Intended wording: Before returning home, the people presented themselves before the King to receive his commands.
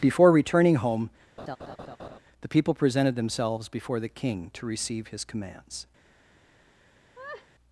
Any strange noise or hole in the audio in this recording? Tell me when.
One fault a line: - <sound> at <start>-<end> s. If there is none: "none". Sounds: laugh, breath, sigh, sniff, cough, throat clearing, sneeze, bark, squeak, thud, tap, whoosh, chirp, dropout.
- laugh at 1.4-2.2 s
- laugh at 7.1-7.5 s